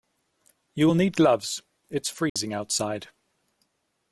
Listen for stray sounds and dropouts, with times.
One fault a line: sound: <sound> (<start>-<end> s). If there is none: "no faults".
sound: dropout (2.3-2.4 s)